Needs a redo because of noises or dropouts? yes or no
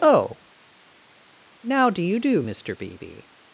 no